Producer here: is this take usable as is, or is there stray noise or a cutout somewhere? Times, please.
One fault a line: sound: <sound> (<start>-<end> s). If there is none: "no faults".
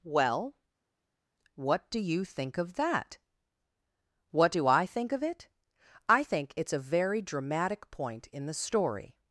no faults